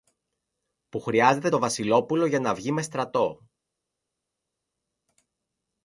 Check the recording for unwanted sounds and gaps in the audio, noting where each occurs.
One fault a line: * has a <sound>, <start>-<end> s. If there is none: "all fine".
all fine